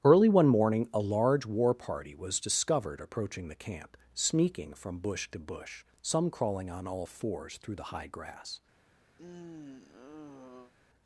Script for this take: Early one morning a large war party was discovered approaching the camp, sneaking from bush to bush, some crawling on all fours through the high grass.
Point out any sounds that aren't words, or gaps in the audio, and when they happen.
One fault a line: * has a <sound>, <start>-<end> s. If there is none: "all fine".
* has a sigh, 9.2-10.7 s